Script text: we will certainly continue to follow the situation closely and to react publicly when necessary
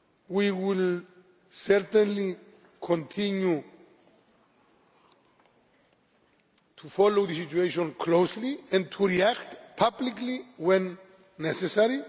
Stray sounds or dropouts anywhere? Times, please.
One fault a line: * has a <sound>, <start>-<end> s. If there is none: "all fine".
all fine